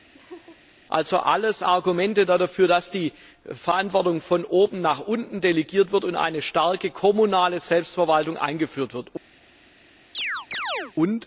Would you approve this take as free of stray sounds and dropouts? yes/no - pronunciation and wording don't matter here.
no